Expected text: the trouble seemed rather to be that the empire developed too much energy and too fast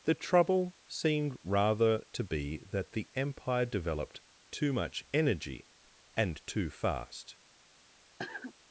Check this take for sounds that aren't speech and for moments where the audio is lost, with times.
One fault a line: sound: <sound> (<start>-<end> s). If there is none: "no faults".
sound: cough (8.2-8.5 s)